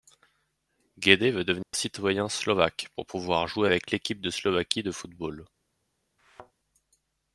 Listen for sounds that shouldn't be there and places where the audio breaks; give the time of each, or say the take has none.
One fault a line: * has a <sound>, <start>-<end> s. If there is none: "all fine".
* has a dropout, 1.6-1.7 s
* has a thud, 6.2-6.5 s